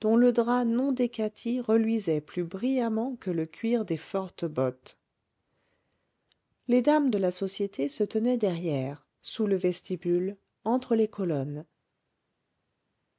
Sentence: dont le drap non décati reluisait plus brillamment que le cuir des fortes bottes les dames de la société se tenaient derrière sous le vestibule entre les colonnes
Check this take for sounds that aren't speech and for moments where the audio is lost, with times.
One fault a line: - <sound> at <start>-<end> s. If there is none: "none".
none